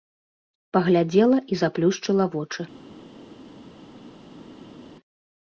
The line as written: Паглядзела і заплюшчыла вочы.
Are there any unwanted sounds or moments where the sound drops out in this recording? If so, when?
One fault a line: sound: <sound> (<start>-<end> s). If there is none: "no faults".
no faults